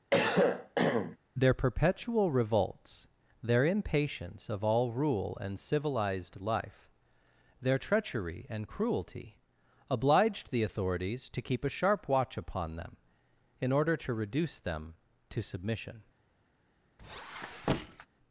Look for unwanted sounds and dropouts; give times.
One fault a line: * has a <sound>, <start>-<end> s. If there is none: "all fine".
* has a cough, 0.1-1.2 s
* has a squeak, 17.0-18.1 s